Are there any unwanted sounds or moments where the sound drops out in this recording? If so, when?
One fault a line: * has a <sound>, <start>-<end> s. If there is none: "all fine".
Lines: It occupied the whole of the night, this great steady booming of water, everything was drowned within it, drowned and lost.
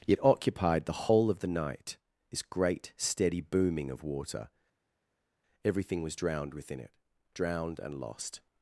all fine